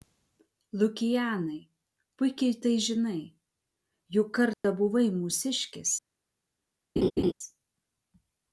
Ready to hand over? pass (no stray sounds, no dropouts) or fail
fail